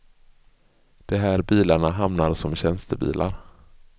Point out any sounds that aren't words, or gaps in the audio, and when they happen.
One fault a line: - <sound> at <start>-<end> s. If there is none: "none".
none